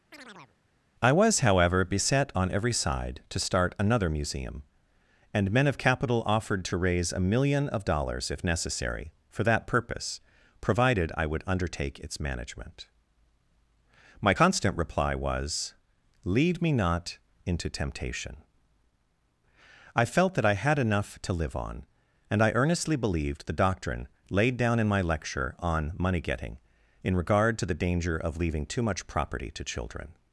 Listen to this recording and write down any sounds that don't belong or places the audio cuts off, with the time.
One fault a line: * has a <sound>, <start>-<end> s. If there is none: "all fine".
* has a chirp, 0.1-0.6 s